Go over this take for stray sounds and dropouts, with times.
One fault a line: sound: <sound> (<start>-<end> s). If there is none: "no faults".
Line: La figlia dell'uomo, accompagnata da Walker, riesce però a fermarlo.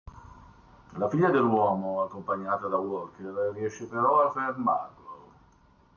no faults